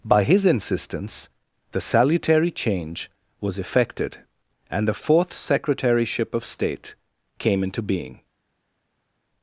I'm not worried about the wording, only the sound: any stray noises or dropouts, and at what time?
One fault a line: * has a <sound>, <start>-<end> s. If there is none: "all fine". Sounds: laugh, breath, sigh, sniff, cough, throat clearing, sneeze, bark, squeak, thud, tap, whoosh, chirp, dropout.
all fine